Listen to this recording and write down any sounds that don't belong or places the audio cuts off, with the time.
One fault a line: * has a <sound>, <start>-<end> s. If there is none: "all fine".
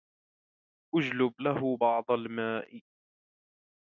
all fine